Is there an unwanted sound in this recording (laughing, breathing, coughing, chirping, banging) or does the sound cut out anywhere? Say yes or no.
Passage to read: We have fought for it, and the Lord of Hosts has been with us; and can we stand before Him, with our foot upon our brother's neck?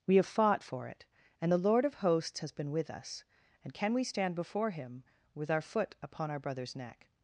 no